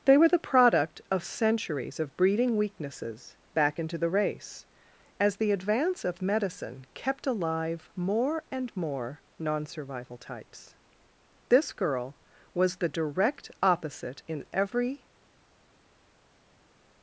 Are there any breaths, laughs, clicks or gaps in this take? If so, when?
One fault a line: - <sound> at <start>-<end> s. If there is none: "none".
none